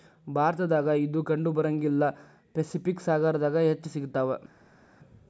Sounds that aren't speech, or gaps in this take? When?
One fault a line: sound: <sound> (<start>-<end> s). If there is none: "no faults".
no faults